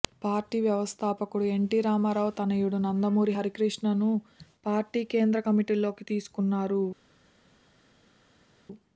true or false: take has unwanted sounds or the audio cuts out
false